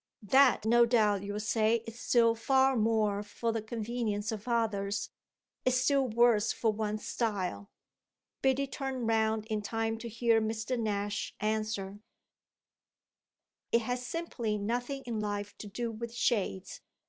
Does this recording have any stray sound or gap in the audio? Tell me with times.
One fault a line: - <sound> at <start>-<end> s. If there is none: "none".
none